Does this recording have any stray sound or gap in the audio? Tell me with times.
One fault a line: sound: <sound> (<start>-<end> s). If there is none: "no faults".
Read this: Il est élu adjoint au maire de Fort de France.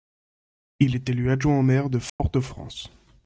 sound: dropout (2.1-2.2 s)